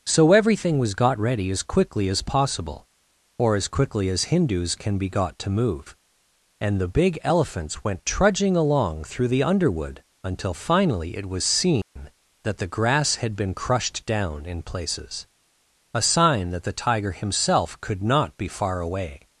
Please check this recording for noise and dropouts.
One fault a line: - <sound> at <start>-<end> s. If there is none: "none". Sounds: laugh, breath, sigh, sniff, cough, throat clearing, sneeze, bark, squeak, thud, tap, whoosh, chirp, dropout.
- dropout at 11.8-12.0 s